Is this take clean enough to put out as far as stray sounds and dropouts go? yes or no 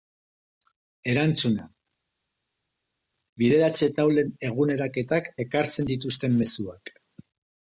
yes